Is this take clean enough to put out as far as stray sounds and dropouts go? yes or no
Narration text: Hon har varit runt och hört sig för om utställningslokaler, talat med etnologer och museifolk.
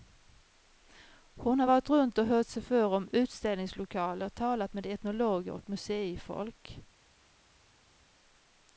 yes